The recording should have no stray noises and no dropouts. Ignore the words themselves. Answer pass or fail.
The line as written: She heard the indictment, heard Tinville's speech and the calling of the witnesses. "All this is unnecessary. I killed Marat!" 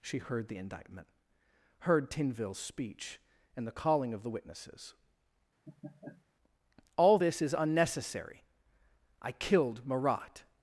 fail